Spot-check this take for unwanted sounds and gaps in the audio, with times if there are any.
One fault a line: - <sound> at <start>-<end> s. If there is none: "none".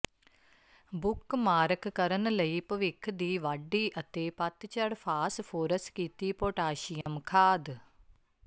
- dropout at 7.0-7.1 s